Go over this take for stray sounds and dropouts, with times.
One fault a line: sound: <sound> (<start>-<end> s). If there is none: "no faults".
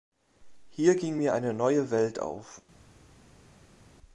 no faults